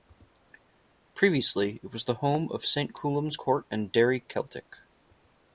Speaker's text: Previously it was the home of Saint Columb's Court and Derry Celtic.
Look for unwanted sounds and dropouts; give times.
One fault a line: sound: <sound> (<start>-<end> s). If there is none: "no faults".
no faults